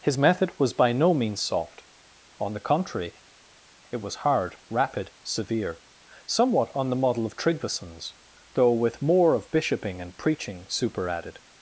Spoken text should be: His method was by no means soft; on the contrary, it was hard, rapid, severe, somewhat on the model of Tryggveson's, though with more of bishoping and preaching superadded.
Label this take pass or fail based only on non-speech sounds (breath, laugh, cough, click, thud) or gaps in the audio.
pass